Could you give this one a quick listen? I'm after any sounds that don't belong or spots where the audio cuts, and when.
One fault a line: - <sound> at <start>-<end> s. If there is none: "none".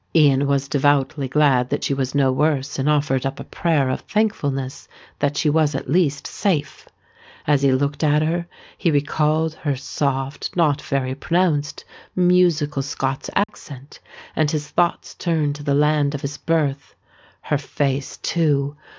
- dropout at 13.4-13.5 s